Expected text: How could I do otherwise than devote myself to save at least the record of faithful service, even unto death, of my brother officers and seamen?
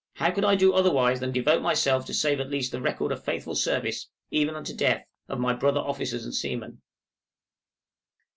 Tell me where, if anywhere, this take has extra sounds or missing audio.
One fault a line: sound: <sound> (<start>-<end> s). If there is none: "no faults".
no faults